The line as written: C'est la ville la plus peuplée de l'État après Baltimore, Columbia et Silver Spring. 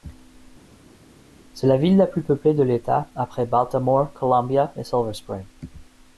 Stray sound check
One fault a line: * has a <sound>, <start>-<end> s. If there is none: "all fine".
all fine